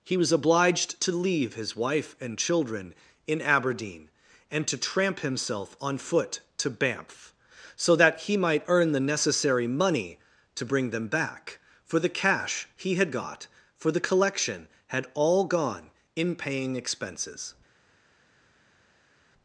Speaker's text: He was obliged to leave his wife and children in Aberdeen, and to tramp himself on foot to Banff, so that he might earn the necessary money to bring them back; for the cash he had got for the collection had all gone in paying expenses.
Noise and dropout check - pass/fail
pass